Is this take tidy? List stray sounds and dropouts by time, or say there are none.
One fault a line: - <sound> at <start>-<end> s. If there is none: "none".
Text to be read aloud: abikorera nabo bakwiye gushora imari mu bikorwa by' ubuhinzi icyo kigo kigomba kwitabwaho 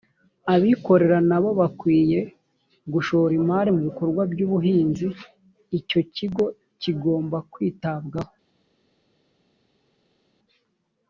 none